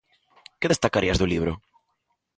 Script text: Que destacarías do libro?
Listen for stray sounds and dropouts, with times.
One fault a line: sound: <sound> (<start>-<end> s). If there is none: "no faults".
no faults